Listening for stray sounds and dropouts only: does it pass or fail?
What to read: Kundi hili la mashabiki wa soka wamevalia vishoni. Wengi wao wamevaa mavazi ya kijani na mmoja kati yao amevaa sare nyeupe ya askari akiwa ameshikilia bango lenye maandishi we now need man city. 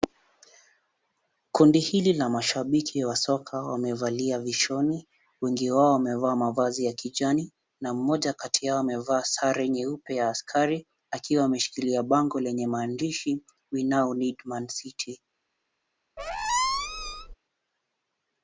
fail